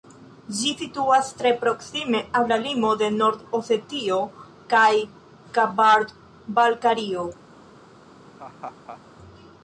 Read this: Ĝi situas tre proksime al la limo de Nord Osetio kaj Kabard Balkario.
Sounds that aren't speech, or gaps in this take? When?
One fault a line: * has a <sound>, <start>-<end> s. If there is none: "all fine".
* has a laugh, 8.3-9.0 s